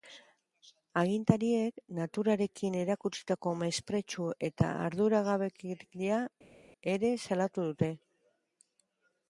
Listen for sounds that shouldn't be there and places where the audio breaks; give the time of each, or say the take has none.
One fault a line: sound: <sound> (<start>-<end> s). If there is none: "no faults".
no faults